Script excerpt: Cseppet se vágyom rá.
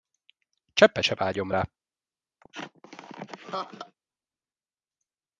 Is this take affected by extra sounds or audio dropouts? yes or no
yes